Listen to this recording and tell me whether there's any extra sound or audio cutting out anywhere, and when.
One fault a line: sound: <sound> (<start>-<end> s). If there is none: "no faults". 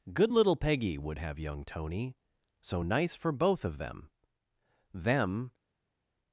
no faults